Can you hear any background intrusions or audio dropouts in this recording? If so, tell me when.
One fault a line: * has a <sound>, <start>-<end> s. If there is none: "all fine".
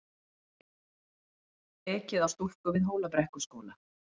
all fine